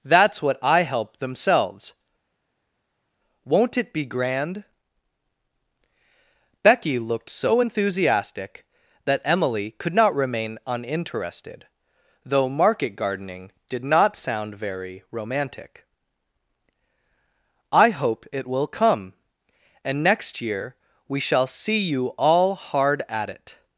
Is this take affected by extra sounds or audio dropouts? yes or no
no